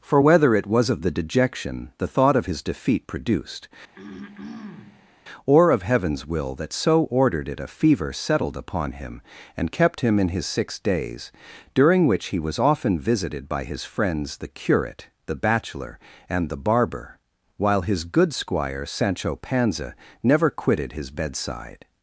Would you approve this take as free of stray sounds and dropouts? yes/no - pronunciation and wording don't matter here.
no